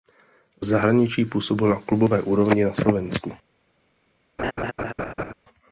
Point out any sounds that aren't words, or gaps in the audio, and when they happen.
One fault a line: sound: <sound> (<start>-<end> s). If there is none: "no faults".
sound: laugh (4.4-5.3 s)